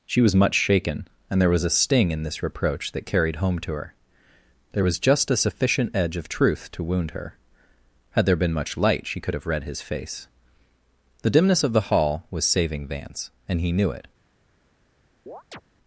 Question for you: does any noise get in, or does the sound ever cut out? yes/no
yes